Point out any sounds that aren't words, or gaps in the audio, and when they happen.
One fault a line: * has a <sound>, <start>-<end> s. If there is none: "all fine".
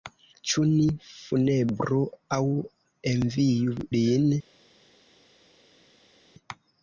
all fine